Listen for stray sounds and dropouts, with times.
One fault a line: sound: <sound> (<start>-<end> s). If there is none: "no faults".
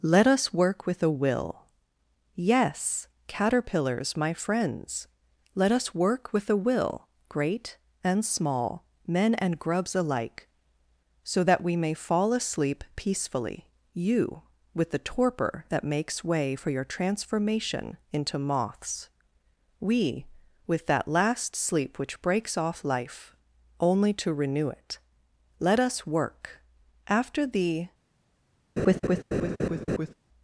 sound: laugh (28.8-30.1 s)